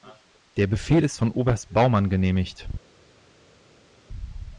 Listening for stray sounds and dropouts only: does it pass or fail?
pass